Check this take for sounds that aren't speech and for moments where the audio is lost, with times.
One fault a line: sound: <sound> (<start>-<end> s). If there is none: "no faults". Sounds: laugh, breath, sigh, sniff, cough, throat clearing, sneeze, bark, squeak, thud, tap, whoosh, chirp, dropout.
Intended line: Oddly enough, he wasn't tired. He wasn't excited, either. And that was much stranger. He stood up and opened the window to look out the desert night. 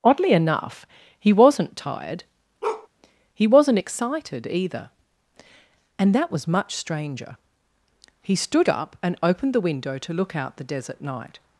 sound: bark (2.6-2.9 s)